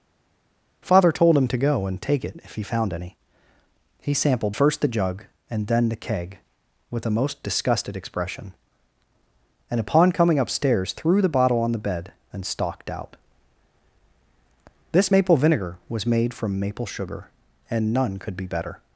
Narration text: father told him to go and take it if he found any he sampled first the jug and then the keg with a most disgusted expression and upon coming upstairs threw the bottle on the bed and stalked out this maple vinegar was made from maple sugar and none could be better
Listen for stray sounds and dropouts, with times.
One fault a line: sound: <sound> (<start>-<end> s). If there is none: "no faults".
no faults